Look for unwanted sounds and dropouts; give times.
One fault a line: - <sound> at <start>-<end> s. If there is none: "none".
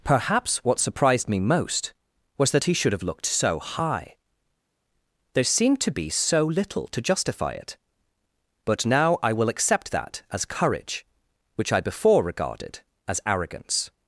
none